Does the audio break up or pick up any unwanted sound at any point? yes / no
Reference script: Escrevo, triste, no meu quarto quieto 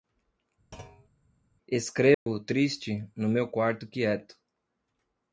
yes